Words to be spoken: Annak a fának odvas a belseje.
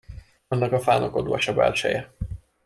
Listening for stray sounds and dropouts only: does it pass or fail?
pass